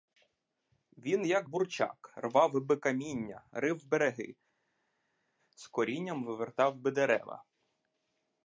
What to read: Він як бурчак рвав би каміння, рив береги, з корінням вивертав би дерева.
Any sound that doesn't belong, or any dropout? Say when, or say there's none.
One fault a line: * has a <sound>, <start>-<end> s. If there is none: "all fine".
all fine